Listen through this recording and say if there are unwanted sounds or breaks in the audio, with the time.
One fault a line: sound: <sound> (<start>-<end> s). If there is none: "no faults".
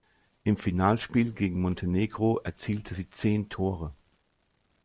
no faults